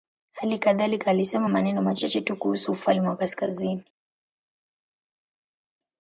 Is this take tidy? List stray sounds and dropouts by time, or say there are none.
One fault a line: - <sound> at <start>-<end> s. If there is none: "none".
none